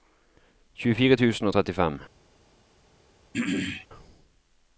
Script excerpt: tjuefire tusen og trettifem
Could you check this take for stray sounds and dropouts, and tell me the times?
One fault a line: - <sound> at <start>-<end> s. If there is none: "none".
- throat clearing at 3.3-3.9 s